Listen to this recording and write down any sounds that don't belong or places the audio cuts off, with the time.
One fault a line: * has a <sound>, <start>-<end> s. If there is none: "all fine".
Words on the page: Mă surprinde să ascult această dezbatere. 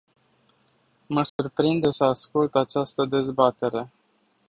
* has a dropout, 1.3-1.4 s